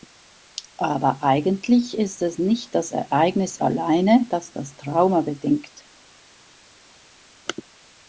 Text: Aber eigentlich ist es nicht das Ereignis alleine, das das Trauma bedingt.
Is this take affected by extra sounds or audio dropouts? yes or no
no